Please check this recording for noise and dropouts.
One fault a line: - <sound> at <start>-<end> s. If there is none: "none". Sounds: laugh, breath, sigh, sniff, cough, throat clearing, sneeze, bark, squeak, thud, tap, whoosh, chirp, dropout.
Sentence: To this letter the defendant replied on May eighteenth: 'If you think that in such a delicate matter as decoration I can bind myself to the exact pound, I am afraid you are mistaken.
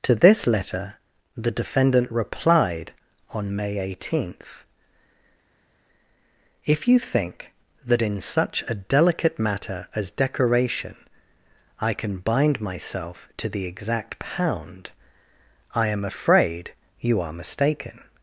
none